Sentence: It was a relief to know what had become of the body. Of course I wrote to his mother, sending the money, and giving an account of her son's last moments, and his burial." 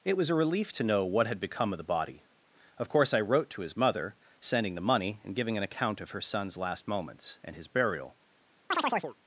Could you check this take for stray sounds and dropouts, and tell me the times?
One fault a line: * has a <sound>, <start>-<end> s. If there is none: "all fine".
* has a chirp, 8.7-9.2 s